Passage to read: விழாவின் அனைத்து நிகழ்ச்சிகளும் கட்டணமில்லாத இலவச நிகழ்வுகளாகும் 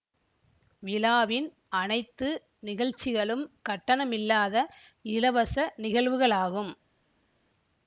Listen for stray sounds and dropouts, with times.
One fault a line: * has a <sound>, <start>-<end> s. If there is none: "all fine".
all fine